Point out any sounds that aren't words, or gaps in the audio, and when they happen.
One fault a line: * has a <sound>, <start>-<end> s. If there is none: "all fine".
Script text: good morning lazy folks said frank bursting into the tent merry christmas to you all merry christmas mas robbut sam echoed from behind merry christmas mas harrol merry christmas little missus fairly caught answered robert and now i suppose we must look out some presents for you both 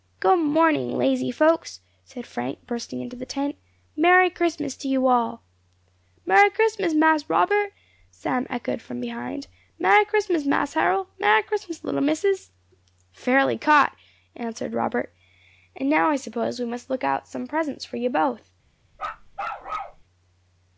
* has a bark, 18.9-20.0 s